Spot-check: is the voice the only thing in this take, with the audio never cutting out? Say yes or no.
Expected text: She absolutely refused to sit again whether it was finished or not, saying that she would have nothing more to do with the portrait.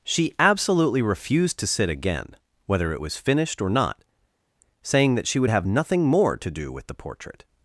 yes